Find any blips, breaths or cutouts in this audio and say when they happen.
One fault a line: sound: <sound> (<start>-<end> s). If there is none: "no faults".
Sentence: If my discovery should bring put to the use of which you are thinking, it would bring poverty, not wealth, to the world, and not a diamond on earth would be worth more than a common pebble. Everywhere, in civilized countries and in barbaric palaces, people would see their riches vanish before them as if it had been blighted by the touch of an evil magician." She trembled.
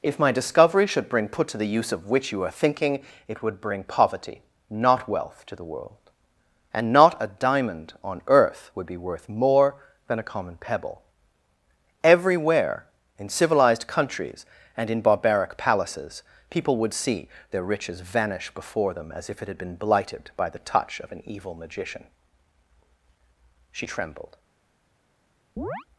sound: chirp (25.6-25.9 s)